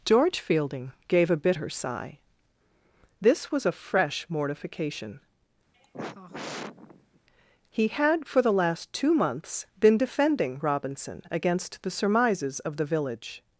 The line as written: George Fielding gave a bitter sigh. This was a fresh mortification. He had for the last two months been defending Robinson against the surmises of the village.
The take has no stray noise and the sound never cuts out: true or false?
false